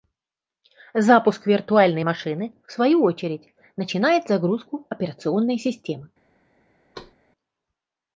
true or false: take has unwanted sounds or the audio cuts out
true